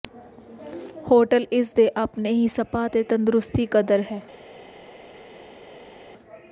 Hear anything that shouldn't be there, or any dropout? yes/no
no